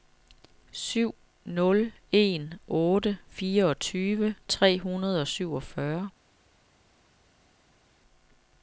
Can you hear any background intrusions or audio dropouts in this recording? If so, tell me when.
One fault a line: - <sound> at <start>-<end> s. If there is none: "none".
none